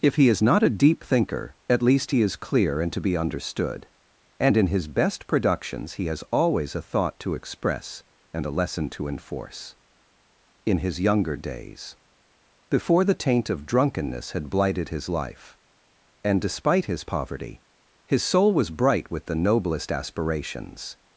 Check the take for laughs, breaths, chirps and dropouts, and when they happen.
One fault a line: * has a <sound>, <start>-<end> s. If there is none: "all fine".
all fine